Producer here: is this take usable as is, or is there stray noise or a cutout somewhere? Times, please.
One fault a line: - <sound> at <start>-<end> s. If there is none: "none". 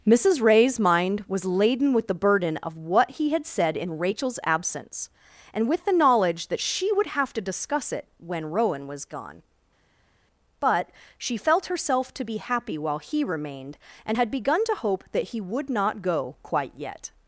none